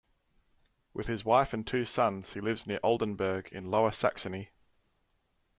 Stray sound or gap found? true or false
false